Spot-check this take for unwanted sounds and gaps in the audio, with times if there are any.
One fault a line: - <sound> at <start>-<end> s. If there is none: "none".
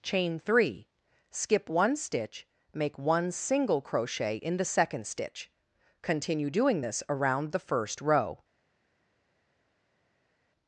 none